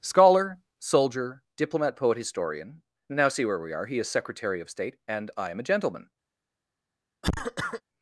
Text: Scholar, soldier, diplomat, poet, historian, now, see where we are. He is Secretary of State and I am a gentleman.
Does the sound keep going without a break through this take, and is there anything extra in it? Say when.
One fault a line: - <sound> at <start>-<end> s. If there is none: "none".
- cough at 7.2-7.8 s